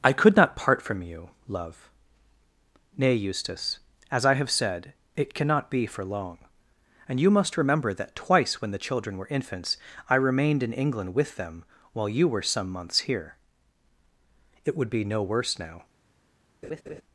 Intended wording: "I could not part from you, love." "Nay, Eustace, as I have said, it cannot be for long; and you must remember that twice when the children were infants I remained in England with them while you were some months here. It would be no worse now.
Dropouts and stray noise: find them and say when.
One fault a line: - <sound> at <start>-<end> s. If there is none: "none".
- laugh at 16.6-17.0 s